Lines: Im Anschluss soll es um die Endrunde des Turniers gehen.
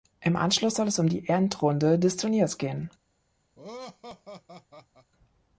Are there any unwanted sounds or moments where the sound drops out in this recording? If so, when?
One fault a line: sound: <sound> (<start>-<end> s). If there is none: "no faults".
sound: laugh (3.6-5.1 s)